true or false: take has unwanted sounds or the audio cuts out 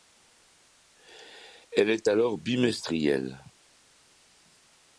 false